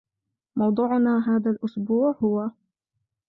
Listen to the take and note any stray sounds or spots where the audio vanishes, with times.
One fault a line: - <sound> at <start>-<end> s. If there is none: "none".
none